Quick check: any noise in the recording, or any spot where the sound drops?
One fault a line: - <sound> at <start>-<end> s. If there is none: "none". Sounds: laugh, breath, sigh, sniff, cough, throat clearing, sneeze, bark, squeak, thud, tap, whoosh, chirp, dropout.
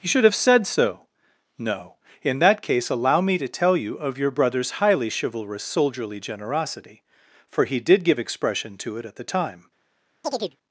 - chirp at 10.2-10.6 s